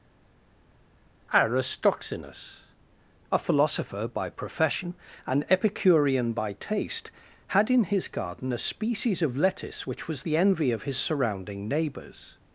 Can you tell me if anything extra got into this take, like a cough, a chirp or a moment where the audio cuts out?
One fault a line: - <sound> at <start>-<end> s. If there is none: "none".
none